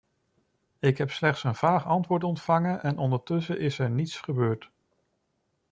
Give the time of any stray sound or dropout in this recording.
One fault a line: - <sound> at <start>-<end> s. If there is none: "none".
none